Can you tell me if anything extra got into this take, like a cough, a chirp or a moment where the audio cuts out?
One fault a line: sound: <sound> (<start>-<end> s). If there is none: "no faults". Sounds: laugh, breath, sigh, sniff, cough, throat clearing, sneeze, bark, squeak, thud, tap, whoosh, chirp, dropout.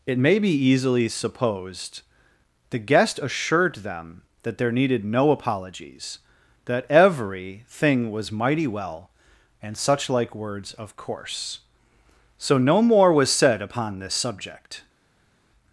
no faults